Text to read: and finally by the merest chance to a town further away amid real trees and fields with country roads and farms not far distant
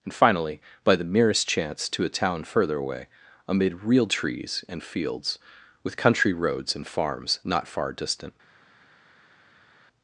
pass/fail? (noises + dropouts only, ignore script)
pass